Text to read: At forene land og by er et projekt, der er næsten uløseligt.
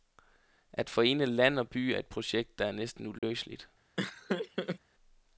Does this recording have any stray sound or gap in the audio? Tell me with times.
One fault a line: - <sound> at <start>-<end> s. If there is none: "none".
- dropout at 3.2-3.2 s
- laugh at 4.0-4.8 s